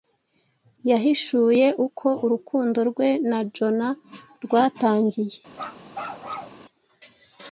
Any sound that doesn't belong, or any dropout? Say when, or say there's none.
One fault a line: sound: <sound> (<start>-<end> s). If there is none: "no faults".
sound: bark (5.5-6.6 s)